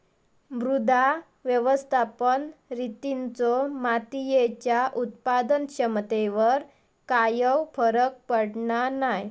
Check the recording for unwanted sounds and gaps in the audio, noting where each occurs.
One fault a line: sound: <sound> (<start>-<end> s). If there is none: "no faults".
no faults